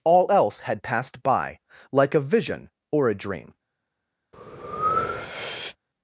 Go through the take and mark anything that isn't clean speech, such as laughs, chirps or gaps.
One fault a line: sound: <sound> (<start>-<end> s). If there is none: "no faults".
sound: breath (4.3-5.8 s)